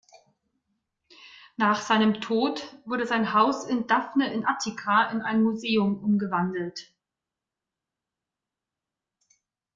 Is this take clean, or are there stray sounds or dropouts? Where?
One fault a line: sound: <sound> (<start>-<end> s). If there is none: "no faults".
no faults